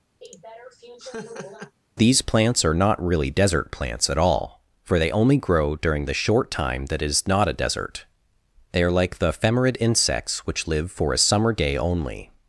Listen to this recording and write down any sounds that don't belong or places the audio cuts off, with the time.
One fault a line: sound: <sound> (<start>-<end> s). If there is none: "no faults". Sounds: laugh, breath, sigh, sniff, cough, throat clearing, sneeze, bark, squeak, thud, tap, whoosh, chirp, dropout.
sound: laugh (0.2-1.8 s)